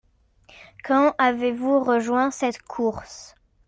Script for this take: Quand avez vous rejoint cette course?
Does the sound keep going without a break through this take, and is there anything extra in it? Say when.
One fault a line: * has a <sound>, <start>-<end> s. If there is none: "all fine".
all fine